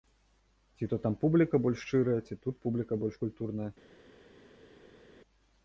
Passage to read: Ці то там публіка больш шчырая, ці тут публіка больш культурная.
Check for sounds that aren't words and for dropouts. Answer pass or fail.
pass